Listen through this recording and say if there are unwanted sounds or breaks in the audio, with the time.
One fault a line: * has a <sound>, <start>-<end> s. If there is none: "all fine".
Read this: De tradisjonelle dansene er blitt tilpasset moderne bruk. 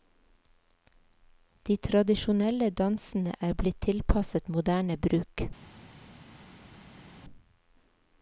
all fine